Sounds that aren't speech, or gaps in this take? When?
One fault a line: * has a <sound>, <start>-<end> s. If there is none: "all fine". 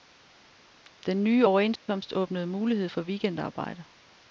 * has a dropout, 1.8-1.9 s